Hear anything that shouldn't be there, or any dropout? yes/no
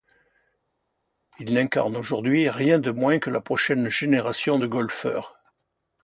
no